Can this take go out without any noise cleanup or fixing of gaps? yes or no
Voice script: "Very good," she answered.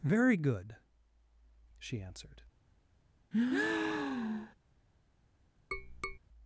no